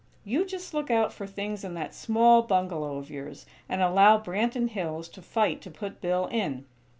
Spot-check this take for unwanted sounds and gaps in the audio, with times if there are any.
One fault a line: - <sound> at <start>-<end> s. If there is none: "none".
none